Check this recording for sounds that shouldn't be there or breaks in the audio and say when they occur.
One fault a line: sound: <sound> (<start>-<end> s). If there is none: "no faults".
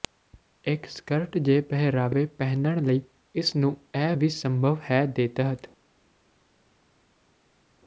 no faults